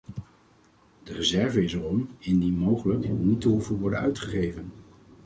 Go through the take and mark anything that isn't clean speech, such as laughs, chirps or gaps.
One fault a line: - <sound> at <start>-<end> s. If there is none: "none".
none